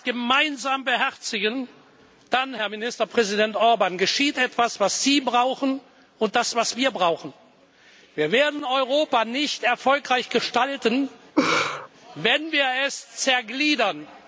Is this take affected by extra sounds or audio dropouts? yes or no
yes